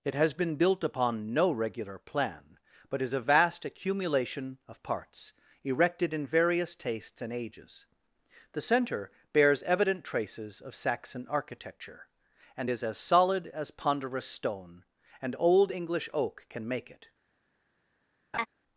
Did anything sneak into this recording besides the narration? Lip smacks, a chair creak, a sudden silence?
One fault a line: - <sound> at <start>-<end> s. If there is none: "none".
- laugh at 18.3-18.5 s